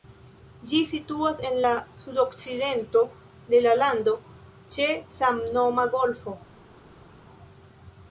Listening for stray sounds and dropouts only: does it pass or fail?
pass